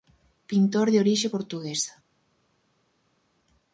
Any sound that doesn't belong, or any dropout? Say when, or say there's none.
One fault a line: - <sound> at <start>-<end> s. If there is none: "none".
none